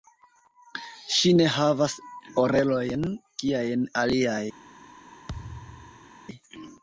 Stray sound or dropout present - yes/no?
yes